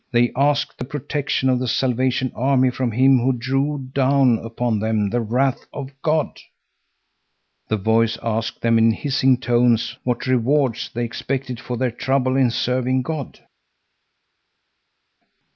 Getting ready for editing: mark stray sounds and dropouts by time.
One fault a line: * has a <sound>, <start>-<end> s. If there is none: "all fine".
all fine